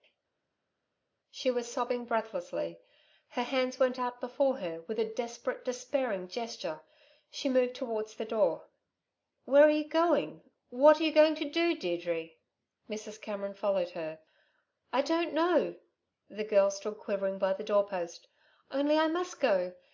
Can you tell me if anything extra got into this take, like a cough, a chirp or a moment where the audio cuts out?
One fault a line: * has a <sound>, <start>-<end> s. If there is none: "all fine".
all fine